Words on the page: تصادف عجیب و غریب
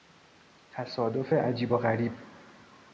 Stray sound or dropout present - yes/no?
no